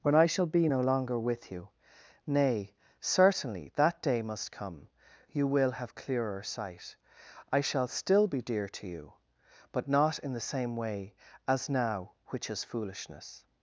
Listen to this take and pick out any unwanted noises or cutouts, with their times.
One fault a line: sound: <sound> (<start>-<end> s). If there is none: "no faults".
no faults